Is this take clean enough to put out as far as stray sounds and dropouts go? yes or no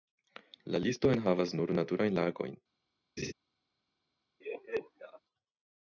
no